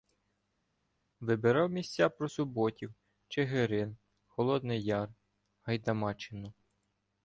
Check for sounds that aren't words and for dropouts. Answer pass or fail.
pass